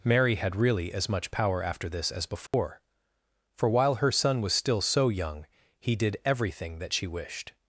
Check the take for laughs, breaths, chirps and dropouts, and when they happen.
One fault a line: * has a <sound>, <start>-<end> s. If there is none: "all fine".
* has a dropout, 2.5-2.5 s